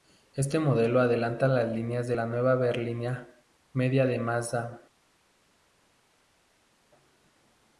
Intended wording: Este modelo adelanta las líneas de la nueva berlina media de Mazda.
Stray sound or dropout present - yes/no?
no